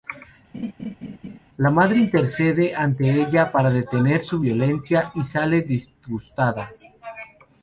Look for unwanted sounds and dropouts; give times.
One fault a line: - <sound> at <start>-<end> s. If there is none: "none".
- laugh at 0.5-1.4 s